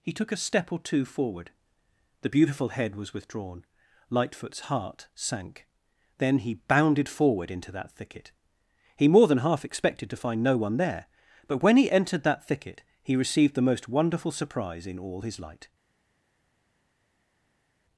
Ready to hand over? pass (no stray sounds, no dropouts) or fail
pass